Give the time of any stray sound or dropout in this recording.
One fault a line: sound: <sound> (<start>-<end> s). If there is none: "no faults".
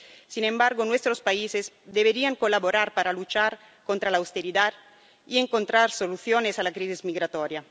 no faults